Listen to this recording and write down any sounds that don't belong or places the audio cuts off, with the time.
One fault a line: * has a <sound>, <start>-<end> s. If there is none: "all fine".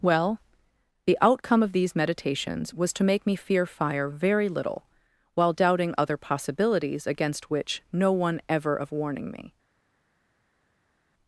all fine